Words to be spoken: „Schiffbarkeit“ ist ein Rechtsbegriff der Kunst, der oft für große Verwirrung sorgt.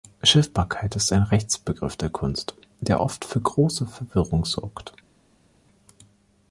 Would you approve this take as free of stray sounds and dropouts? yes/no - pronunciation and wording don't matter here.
yes